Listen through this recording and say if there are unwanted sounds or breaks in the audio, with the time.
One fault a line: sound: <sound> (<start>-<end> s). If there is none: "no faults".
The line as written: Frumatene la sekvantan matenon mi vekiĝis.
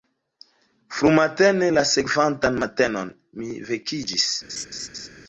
sound: laugh (4.5-5.1 s)